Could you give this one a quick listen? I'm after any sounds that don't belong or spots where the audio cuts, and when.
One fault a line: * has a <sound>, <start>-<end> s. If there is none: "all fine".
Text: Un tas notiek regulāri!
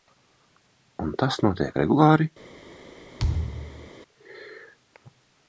* has a thud, 3.2-3.9 s